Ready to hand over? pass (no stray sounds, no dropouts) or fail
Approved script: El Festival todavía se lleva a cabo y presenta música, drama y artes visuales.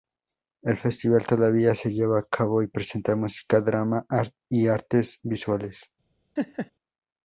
fail